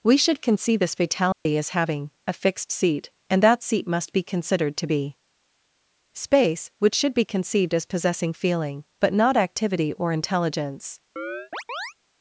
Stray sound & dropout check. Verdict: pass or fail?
fail